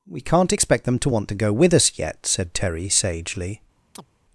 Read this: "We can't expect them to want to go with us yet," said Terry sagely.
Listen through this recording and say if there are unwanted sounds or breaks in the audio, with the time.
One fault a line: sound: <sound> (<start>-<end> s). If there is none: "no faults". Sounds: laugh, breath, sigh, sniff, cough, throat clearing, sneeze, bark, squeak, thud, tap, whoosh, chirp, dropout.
sound: chirp (4.0-4.1 s)